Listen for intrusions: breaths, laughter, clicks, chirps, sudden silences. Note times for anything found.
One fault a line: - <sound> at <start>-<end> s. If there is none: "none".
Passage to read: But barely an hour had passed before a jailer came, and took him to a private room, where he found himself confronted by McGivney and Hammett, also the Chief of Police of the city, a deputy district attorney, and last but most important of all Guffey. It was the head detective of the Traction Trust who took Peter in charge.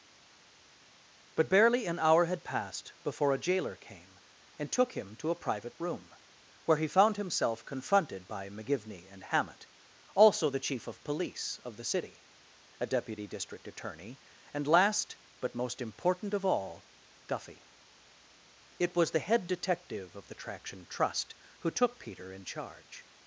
none